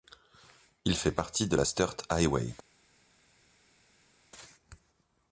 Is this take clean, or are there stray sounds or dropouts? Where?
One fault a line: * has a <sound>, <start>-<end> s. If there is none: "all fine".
all fine